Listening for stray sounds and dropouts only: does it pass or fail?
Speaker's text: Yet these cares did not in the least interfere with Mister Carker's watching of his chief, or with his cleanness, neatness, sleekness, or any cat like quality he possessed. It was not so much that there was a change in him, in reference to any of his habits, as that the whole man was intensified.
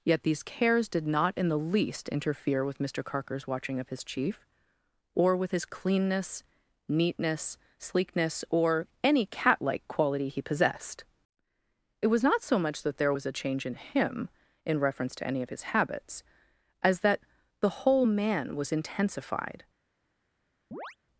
fail